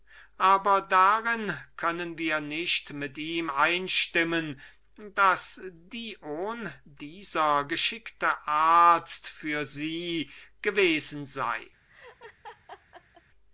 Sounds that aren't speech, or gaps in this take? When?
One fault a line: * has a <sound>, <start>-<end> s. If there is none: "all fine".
* has a laugh, 11.9-13.2 s